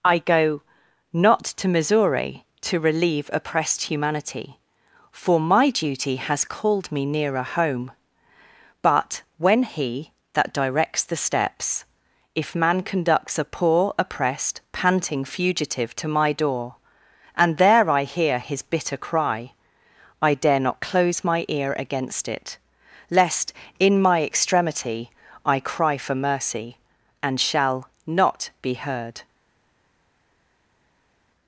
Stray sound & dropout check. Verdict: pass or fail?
pass